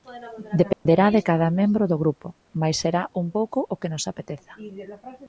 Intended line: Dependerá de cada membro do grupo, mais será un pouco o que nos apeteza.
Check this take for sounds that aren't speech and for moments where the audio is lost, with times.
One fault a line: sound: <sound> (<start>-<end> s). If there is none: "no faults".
sound: dropout (0.7-0.9 s)